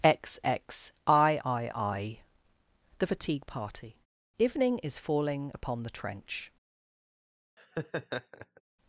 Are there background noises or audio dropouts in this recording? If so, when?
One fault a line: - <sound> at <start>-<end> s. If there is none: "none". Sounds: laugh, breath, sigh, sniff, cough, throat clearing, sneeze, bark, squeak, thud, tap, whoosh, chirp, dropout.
- laugh at 7.6-8.6 s